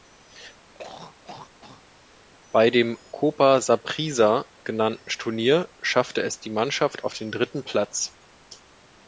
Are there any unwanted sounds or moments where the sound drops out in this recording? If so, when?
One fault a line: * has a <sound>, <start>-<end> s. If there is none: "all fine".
* has a throat clearing, 0.7-2.3 s